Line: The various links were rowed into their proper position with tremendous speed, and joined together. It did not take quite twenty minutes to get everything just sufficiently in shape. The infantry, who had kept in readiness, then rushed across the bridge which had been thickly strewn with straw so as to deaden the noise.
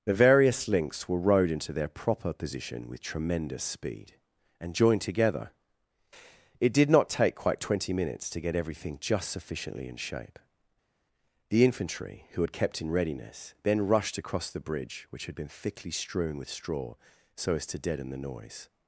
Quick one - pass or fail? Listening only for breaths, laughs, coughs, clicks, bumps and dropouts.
pass